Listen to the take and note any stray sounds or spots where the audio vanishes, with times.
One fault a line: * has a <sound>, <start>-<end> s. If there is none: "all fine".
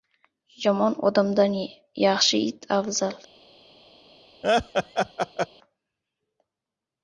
* has a laugh, 4.4-5.5 s